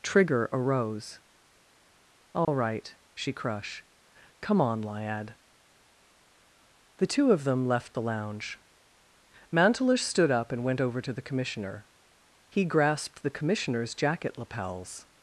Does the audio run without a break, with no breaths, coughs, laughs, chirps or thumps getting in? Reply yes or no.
no